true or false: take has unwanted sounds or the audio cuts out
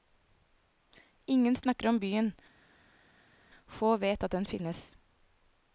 false